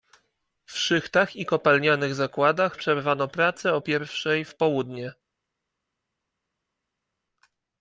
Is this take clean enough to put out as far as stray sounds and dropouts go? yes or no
yes